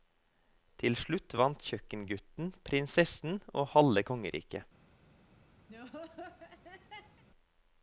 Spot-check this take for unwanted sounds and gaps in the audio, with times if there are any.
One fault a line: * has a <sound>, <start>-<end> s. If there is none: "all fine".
* has a laugh, 5.7-7.2 s